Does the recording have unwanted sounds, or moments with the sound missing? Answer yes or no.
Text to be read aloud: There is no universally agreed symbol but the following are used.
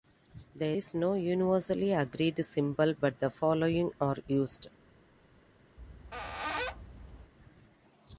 yes